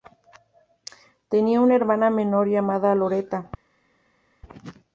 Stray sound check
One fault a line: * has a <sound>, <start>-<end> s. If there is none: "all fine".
all fine